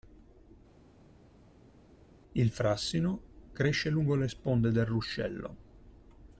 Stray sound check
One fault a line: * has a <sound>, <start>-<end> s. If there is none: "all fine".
all fine